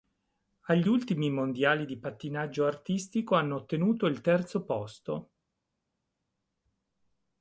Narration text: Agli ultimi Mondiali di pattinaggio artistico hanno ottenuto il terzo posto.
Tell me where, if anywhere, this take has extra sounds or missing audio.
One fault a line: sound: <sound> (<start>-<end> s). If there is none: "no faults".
no faults